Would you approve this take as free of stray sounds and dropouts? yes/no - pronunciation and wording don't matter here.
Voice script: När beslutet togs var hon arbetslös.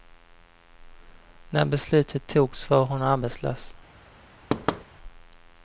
no